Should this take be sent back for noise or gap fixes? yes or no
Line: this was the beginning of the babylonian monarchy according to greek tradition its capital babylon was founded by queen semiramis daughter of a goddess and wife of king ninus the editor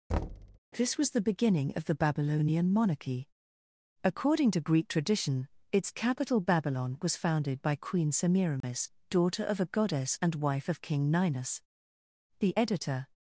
yes